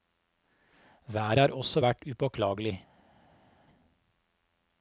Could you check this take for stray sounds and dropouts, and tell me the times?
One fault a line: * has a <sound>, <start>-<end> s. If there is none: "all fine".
all fine